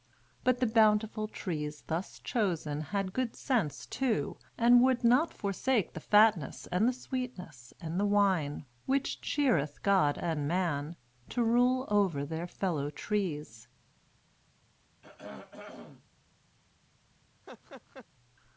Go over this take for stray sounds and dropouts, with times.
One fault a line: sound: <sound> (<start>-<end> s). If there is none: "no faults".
sound: throat clearing (15.0-16.0 s)
sound: laugh (17.4-18.1 s)